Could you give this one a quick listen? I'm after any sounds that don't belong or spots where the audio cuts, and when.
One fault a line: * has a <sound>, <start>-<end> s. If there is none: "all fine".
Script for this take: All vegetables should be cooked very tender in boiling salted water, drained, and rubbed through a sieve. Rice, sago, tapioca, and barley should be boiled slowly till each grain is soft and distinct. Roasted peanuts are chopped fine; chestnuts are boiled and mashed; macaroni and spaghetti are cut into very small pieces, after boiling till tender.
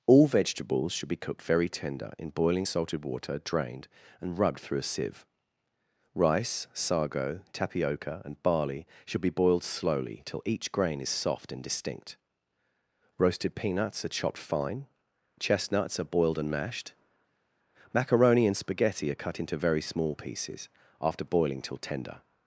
all fine